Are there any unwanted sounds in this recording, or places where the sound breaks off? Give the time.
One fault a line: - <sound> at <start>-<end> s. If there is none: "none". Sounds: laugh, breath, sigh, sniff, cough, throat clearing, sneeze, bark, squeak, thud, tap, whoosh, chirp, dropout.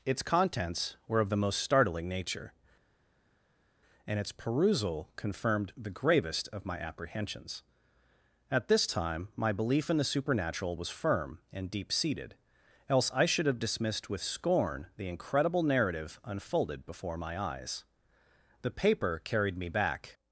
none